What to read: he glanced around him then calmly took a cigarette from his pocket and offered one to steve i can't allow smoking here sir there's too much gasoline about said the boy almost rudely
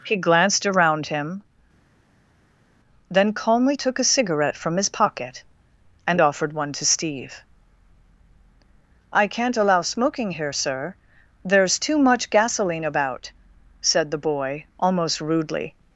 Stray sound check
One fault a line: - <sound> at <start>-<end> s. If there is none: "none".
none